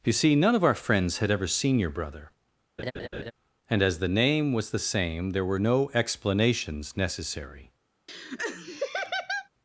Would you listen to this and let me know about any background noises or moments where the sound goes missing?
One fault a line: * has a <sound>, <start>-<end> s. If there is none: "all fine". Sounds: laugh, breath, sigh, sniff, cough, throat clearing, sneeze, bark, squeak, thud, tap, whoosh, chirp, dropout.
* has a laugh, 2.8-3.3 s
* has a laugh, 8.1-9.5 s